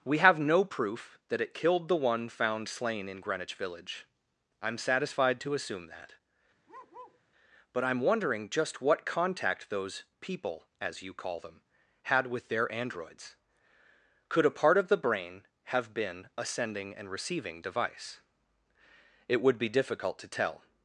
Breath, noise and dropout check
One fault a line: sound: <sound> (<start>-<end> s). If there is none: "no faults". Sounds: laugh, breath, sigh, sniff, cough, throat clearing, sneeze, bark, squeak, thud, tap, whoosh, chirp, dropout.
sound: bark (6.7-7.2 s)